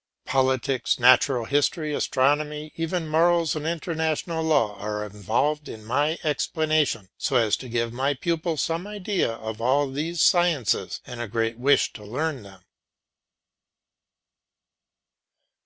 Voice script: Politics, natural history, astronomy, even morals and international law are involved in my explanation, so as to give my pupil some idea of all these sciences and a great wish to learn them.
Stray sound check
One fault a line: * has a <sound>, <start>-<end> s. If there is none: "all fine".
all fine